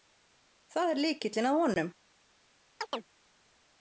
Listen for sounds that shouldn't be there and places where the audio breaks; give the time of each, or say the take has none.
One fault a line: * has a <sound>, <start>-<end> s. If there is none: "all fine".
* has a chirp, 2.8-3.1 s